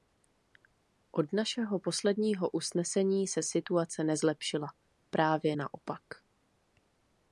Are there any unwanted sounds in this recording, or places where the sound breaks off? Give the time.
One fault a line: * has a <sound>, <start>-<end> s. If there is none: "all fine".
all fine